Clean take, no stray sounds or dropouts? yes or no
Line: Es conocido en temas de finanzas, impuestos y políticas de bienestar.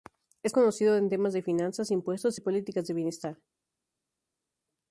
yes